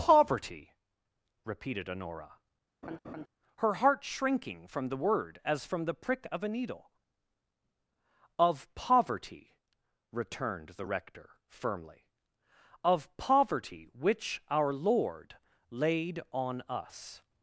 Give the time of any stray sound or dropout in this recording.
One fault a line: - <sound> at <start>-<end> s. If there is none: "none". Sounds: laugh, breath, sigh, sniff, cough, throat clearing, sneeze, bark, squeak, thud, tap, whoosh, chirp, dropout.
- laugh at 2.8-3.3 s